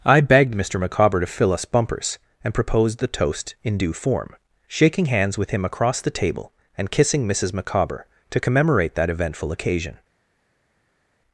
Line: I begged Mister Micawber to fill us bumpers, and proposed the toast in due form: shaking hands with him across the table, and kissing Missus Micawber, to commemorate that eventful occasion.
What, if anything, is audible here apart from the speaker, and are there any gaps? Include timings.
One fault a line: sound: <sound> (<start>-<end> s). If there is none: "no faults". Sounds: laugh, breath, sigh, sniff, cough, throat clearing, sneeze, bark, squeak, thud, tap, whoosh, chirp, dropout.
no faults